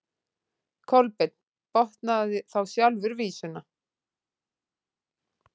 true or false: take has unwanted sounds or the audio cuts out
false